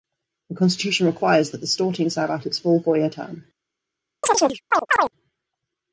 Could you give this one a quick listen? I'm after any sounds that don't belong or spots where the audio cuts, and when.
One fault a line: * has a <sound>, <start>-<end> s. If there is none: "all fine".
* has a chirp, 4.2-5.1 s